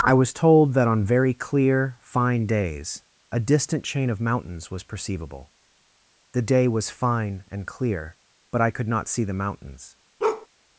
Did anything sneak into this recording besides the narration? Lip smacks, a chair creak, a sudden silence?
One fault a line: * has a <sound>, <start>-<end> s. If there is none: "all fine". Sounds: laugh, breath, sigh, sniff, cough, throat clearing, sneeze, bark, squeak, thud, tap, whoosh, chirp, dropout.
* has a bark, 10.2-10.5 s